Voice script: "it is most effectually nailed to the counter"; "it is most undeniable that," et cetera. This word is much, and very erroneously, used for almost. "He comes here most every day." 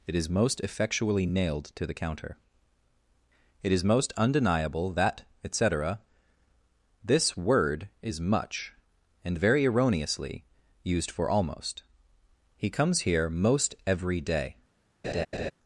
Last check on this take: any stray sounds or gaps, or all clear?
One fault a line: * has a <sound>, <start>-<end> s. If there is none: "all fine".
* has a laugh, 15.0-15.5 s